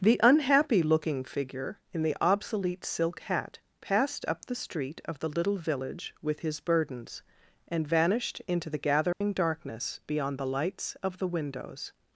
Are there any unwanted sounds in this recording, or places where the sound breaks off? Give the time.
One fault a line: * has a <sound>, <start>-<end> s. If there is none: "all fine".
* has a dropout, 9.1-9.2 s